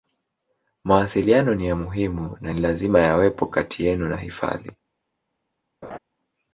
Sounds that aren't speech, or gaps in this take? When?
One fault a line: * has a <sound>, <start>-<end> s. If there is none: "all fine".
* has a laugh, 5.8-6.0 s